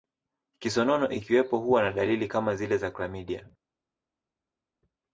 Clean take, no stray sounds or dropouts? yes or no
yes